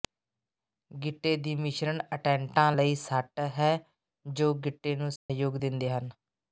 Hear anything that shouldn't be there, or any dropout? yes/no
yes